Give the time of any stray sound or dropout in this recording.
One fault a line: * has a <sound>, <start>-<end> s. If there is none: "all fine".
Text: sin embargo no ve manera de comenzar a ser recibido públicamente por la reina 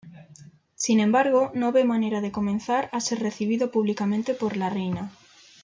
all fine